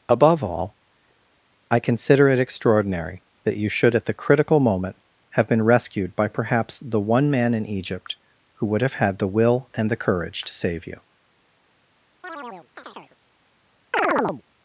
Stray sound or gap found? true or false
true